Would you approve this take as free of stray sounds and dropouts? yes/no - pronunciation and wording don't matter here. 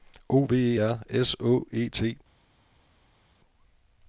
yes